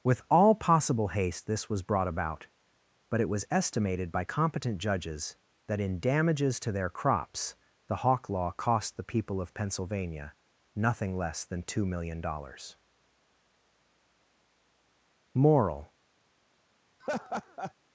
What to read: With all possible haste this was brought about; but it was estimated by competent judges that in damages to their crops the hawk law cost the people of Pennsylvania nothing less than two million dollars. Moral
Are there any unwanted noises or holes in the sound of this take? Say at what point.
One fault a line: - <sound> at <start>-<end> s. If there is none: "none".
- laugh at 17.0-17.7 s